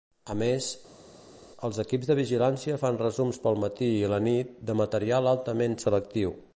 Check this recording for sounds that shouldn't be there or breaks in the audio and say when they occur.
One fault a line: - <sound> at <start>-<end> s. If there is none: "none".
none